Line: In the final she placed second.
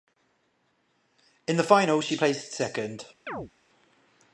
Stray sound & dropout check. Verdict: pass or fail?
fail